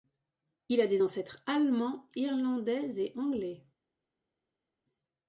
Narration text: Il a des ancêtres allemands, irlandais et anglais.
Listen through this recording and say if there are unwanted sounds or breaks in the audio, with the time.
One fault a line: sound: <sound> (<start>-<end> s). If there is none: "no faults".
no faults